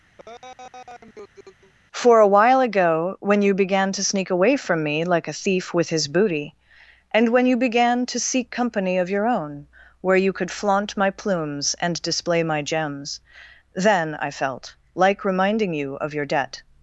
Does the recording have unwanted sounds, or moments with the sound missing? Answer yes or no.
yes